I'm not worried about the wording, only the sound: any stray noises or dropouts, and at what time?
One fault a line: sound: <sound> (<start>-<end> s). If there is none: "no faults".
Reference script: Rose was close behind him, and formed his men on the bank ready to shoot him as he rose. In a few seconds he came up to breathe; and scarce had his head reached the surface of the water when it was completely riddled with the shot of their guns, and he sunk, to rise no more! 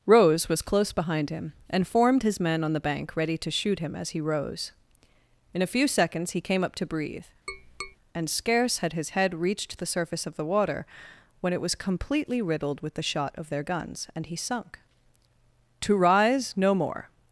sound: tap (7.5-8.0 s)